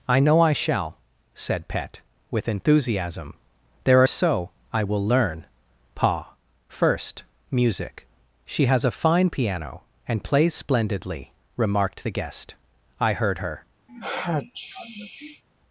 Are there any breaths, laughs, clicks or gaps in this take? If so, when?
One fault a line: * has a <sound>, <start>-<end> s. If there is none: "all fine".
* has a sneeze, 13.9-15.4 s